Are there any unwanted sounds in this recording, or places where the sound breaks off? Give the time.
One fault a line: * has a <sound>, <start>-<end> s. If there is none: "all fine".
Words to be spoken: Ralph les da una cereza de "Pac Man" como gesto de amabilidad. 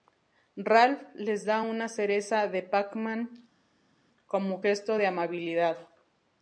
all fine